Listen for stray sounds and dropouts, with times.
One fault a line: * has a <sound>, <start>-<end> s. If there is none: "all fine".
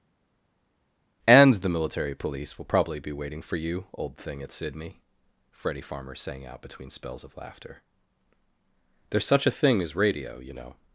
all fine